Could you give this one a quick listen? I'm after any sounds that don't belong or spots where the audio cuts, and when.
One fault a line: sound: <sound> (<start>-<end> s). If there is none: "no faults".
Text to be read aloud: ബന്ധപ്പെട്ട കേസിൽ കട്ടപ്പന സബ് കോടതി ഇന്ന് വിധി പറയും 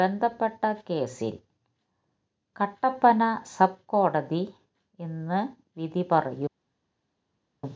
no faults